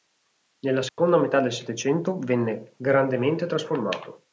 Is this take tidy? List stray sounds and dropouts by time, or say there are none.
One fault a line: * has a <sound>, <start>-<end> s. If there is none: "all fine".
* has a dropout, 0.9-1.0 s